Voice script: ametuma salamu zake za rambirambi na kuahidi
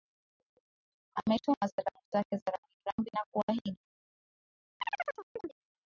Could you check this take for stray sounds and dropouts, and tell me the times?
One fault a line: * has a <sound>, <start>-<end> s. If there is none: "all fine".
* has a chirp, 4.8-5.6 s